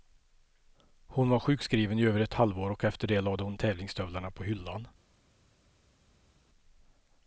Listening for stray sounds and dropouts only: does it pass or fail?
pass